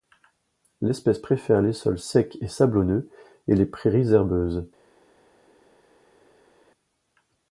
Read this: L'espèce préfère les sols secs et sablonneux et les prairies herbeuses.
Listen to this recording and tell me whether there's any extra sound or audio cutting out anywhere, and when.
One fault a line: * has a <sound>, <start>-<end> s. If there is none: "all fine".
all fine